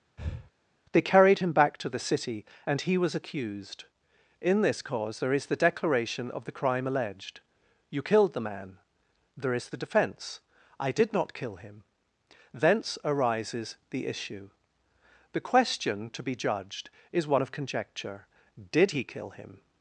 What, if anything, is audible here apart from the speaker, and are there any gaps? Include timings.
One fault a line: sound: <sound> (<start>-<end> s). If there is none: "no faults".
sound: breath (0.2-0.5 s)